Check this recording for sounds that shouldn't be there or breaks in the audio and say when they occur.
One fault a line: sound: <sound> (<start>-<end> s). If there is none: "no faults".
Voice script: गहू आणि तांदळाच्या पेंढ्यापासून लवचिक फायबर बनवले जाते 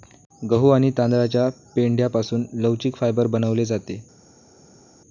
no faults